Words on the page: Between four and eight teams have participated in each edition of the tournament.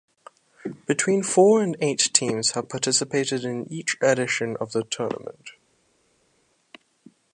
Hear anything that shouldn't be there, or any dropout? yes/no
no